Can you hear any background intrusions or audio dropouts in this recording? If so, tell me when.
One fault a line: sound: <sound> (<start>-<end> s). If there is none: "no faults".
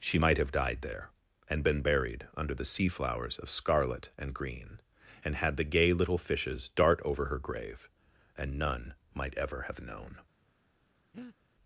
sound: breath (11.1-11.4 s)